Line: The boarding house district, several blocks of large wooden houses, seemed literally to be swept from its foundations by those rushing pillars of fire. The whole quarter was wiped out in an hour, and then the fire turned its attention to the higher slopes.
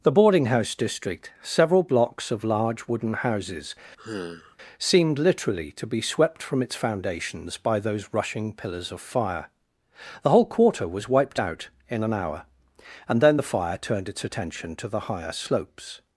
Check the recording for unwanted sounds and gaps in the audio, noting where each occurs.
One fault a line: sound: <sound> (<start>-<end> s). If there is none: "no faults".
sound: sigh (4.0-4.6 s)